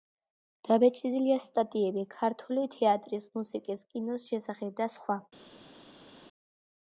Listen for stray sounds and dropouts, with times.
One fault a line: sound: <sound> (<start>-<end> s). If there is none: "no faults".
no faults